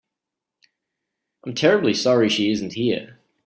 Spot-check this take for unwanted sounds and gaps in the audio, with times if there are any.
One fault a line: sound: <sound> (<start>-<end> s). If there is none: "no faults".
no faults